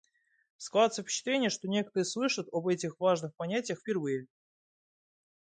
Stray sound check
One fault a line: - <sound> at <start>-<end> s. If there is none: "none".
none